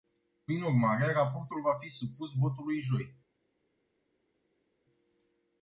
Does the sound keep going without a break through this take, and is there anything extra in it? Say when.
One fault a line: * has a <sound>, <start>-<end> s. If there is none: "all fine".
all fine